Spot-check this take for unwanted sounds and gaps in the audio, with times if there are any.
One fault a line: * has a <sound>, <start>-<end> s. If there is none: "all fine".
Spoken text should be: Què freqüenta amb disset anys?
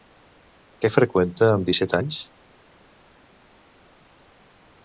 all fine